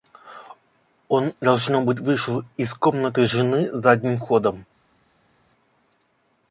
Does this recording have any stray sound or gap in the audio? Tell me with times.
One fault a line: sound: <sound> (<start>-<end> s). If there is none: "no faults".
no faults